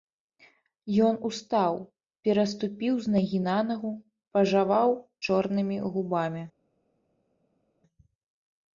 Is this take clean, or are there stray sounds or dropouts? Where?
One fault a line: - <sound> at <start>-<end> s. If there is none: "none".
none